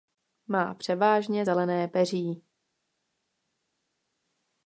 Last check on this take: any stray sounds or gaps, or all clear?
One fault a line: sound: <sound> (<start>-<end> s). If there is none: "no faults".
no faults